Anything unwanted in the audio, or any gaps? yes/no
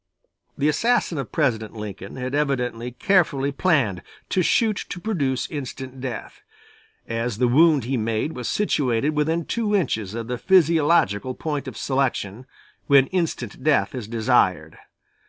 no